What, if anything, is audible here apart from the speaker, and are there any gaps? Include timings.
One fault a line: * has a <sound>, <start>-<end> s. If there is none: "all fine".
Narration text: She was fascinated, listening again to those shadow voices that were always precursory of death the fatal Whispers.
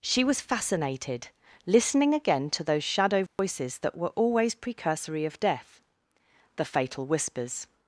* has a dropout, 3.3-3.4 s